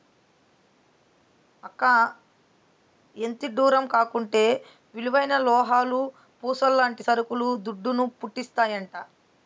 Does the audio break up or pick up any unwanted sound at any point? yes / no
no